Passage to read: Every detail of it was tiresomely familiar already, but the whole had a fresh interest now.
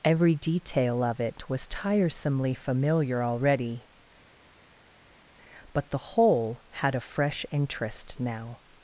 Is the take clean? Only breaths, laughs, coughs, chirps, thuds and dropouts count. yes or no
yes